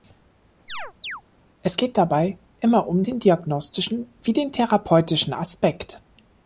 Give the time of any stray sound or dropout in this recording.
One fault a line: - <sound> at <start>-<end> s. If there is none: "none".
- chirp at 0.7-1.2 s